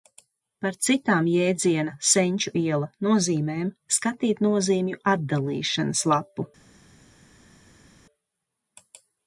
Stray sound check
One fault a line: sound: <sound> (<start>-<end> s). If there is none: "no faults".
no faults